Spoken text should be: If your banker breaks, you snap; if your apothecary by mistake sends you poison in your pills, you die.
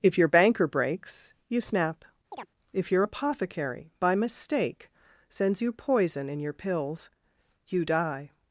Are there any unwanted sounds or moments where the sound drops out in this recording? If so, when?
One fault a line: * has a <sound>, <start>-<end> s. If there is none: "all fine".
* has a chirp, 2.3-2.5 s